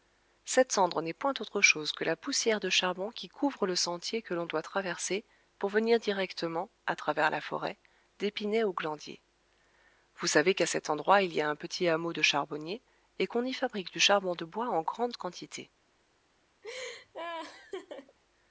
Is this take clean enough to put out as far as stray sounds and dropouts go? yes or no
no